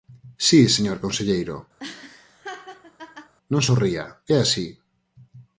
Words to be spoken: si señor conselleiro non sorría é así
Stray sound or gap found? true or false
true